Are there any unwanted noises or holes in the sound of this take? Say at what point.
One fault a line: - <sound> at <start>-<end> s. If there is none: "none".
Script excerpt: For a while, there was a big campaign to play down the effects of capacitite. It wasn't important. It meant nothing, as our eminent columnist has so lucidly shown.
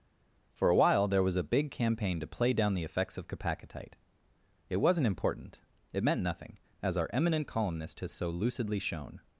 none